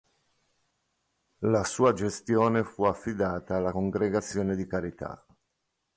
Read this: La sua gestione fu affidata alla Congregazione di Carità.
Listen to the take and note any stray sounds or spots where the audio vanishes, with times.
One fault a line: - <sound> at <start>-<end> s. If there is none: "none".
none